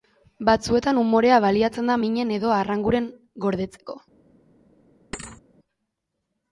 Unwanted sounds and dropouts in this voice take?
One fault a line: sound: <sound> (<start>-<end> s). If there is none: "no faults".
sound: thud (5.1-5.4 s)